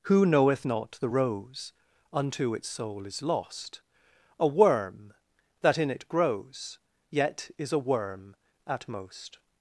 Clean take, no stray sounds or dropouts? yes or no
yes